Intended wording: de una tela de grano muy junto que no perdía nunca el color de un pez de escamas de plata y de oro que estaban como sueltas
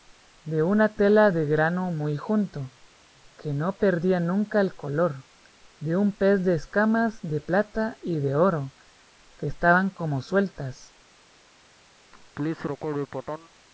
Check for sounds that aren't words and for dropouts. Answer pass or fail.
fail